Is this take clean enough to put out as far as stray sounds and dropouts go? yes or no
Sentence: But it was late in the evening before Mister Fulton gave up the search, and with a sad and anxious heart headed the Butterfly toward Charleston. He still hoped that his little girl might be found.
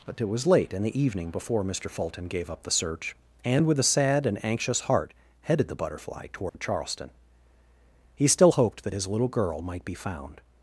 no